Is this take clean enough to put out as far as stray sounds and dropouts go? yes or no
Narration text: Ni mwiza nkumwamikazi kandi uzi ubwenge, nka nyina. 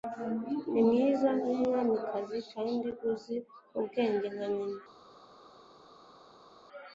yes